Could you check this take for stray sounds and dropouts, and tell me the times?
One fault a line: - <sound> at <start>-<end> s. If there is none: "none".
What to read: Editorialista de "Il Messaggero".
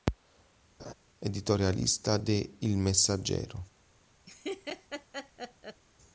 - laugh at 0.8-0.9 s
- laugh at 4.3-5.8 s